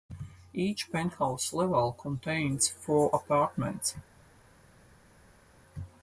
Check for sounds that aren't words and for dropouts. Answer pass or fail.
pass